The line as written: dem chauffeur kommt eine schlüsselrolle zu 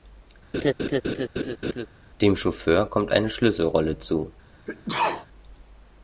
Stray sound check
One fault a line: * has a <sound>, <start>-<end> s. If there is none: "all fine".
* has a laugh, 0.5-1.9 s
* has a sneeze, 4.7-5.3 s